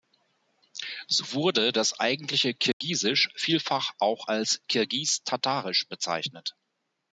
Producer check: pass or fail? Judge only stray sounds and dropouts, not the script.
fail